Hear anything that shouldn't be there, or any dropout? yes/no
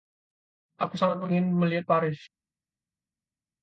no